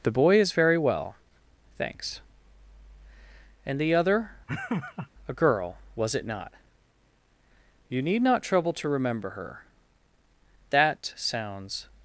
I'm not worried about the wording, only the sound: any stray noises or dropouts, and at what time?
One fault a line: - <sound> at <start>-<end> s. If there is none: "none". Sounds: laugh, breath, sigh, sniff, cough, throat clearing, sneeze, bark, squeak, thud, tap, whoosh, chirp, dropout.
- laugh at 4.5-5.1 s